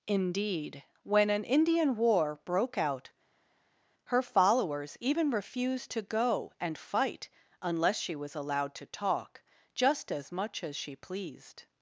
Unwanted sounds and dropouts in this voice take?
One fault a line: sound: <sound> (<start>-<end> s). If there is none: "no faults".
no faults